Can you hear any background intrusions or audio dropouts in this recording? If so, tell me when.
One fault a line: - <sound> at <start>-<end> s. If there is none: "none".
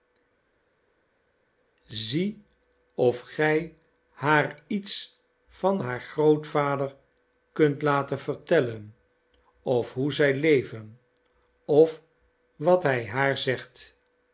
none